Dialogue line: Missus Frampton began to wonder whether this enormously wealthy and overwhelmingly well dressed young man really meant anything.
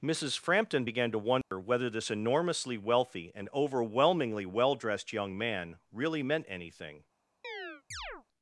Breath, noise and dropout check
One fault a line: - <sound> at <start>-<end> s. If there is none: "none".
- dropout at 1.4-1.5 s
- chirp at 7.4-8.3 s